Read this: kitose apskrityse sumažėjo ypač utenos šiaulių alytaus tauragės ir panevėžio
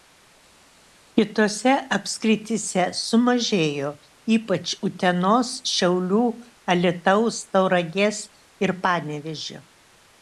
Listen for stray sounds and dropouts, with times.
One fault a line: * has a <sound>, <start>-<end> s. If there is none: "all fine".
all fine